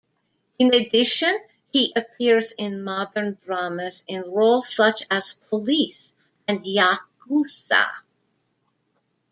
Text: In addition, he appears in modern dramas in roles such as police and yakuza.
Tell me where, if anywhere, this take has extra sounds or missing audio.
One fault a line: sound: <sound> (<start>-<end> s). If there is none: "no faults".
no faults